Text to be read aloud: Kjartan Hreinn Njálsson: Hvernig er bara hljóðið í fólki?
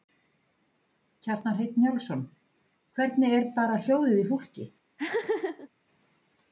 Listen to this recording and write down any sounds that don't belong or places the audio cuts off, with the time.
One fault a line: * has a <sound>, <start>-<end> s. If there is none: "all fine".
* has a laugh, 5.0-5.7 s